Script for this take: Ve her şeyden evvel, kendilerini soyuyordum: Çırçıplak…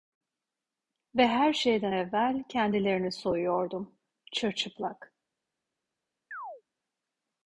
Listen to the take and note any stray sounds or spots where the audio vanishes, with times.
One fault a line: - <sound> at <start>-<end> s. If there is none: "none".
- chirp at 6.3-6.6 s